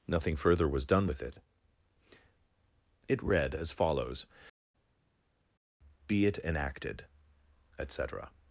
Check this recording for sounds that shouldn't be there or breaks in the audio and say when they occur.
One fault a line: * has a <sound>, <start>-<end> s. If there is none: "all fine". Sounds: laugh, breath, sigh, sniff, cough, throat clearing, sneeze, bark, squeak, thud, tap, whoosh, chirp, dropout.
all fine